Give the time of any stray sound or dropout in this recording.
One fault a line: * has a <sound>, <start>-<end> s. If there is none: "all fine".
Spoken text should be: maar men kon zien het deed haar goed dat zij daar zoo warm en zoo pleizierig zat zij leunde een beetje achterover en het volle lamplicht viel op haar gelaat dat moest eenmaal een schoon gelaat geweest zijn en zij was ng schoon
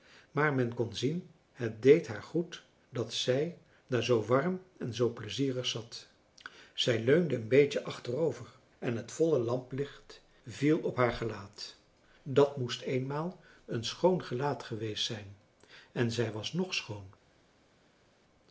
all fine